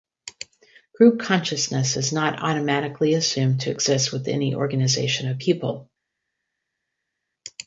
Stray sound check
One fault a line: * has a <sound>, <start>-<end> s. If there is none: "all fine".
all fine